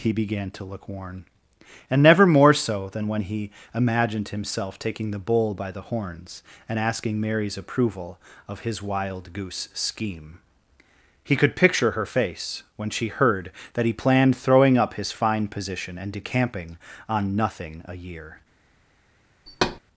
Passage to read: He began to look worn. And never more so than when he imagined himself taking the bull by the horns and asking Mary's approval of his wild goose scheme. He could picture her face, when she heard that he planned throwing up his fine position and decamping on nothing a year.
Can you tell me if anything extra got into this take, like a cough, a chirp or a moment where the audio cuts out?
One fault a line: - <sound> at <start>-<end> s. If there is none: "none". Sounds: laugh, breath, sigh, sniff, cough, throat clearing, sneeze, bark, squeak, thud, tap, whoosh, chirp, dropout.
- thud at 19.5-19.8 s